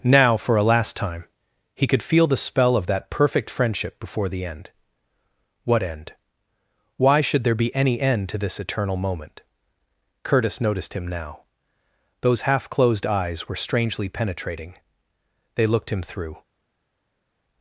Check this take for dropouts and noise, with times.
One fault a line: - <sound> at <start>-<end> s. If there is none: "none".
none